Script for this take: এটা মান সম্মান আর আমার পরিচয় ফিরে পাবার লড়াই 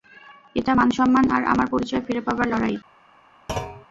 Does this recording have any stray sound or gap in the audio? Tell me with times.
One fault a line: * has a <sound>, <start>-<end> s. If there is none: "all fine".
* has a thud, 3.5-3.9 s